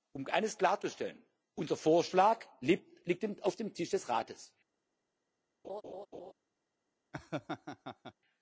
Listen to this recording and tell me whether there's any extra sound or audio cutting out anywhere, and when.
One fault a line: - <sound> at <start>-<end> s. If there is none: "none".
- laugh at 5.6-6.3 s
- laugh at 7.1-8.1 s